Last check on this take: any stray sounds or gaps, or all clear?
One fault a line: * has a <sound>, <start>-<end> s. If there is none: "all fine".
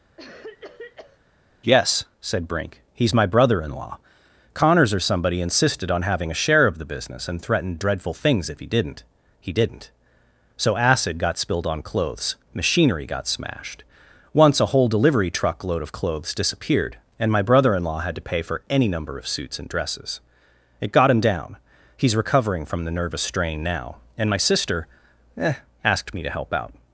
* has a cough, 0.2-1.2 s